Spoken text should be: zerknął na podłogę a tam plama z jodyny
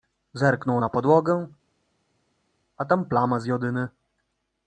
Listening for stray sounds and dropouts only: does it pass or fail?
pass